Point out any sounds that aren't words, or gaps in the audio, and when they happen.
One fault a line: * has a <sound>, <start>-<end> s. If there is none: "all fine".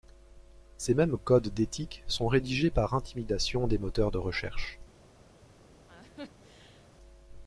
* has a laugh, 5.9-6.9 s